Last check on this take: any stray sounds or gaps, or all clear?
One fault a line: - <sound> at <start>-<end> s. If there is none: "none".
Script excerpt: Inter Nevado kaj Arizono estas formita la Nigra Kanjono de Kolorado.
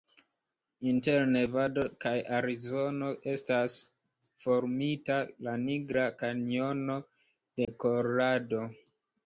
- dropout at 7.6-7.7 s